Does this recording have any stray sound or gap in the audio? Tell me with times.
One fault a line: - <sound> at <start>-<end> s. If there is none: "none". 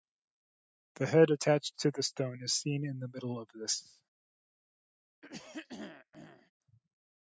- throat clearing at 5.2-6.5 s